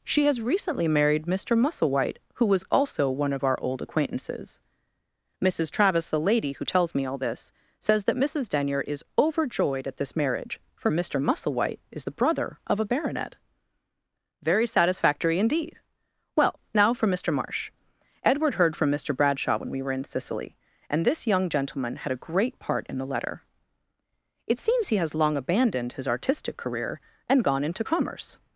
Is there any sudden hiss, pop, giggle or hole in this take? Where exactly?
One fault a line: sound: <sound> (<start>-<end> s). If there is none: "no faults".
no faults